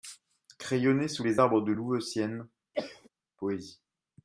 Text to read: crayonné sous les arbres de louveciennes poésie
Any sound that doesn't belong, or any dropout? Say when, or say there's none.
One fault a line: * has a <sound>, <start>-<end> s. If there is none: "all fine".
* has a cough, 2.7-3.1 s